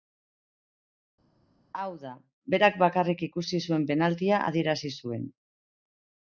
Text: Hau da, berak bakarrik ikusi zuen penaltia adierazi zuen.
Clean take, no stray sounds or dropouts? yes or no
yes